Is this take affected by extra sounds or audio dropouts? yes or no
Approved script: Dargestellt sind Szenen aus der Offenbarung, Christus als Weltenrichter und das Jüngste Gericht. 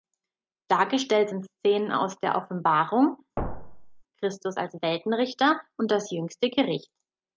yes